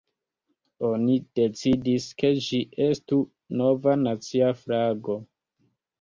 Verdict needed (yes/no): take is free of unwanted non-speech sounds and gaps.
yes